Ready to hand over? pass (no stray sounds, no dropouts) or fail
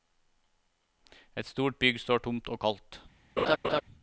fail